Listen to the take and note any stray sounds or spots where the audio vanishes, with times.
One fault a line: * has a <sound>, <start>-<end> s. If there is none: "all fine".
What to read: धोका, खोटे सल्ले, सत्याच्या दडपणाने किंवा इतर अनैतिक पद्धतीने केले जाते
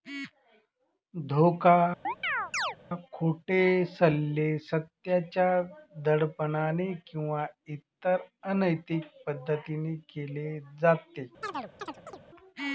* has a chirp, 2.0-2.8 s
* has a chirp, 11.4-12.2 s